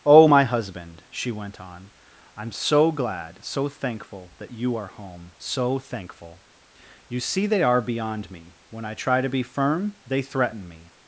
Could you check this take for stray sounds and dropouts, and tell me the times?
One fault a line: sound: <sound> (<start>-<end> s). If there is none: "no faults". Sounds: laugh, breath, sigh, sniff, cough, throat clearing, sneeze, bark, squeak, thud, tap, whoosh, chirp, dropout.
no faults